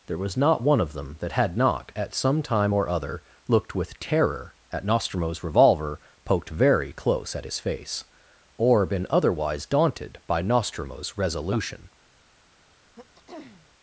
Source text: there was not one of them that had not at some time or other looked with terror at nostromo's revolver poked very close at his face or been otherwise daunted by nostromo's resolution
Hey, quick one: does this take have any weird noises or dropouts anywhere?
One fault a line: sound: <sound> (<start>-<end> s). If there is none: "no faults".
sound: throat clearing (13.0-13.7 s)